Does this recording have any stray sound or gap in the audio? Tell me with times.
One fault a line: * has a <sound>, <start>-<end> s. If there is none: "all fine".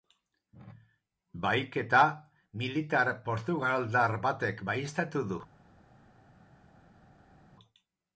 all fine